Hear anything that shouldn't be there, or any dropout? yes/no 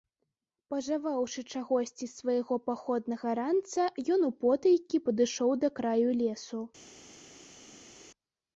no